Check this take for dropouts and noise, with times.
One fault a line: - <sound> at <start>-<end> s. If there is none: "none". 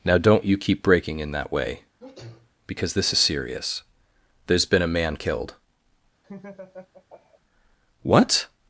- sneeze at 2.0-2.5 s
- laugh at 6.2-7.4 s